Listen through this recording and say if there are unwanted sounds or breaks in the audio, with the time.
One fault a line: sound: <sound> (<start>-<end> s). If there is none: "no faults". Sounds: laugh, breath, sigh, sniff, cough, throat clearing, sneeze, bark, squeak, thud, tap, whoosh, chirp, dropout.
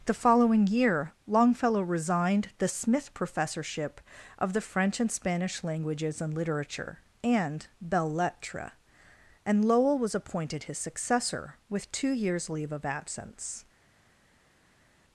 no faults